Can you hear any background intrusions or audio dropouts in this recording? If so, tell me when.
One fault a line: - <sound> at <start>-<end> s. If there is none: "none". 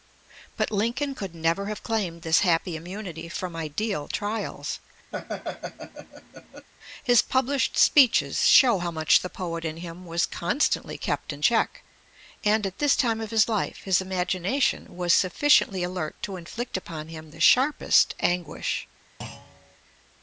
- laugh at 5.1-6.7 s
- thud at 19.2-19.8 s